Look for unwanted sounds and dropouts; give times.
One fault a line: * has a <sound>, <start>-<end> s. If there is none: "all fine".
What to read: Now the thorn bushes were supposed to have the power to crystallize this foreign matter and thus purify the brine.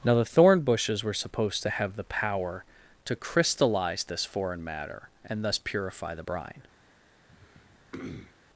* has a throat clearing, 7.3-8.3 s